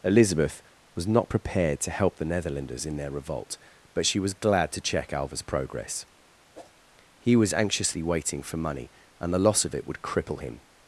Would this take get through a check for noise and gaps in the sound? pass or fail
fail